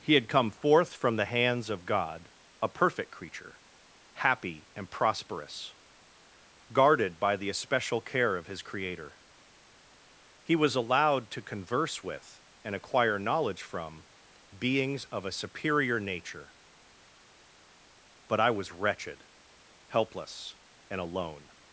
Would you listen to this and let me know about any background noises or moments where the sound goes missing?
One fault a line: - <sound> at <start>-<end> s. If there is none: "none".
none